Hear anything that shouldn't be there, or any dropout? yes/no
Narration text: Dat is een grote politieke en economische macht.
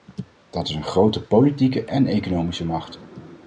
no